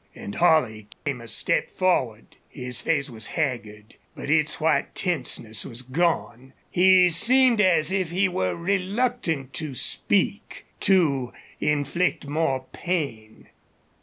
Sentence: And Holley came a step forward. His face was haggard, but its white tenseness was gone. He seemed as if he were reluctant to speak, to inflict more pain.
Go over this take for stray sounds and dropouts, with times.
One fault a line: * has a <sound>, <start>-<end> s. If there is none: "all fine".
* has a dropout, 0.9-1.1 s